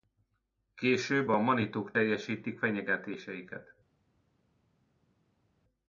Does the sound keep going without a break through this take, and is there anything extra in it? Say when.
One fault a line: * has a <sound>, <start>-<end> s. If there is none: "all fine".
all fine